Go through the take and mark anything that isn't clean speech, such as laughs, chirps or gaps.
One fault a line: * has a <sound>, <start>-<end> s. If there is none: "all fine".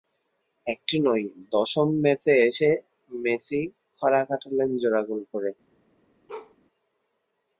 * has a bark, 6.3-6.6 s